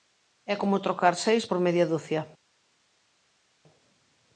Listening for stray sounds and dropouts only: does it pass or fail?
pass